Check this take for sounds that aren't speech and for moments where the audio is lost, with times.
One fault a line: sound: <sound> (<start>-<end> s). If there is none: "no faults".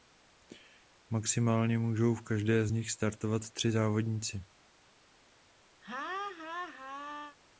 sound: laugh (5.8-7.4 s)